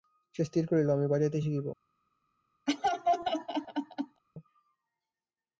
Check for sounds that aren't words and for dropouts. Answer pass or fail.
fail